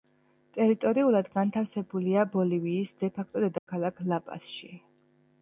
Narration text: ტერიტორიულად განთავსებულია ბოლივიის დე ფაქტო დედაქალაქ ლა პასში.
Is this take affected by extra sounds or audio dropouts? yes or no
yes